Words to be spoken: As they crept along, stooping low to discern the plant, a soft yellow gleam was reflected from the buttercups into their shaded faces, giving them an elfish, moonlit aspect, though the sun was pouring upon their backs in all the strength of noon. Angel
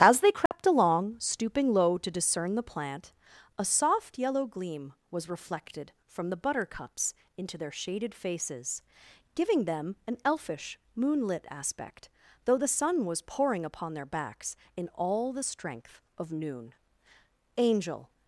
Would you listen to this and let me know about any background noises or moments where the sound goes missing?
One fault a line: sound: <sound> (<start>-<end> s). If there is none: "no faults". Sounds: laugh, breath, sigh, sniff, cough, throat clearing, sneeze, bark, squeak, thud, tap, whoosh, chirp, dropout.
sound: dropout (0.5-0.5 s)